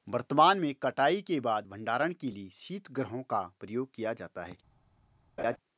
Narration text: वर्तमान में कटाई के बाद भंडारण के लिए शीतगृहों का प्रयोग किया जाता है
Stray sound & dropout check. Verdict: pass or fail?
fail